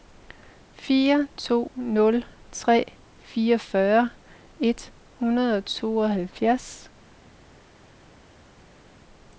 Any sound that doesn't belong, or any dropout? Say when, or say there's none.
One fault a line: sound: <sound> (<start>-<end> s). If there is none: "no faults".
no faults